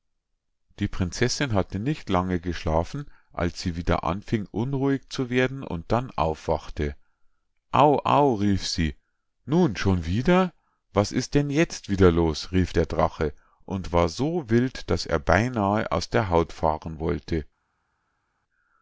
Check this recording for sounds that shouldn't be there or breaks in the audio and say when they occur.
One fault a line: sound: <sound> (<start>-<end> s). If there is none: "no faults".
no faults